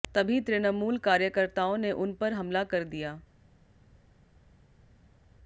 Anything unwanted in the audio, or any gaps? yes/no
no